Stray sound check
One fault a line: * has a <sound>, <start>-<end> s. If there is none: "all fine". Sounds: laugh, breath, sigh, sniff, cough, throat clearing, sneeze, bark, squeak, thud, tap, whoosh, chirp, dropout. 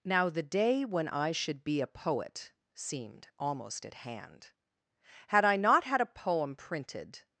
all fine